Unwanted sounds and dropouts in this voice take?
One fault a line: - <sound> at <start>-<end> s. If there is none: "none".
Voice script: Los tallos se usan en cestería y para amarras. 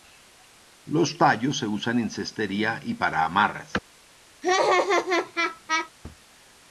- laugh at 4.4-5.9 s